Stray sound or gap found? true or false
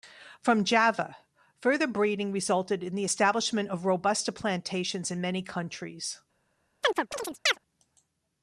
true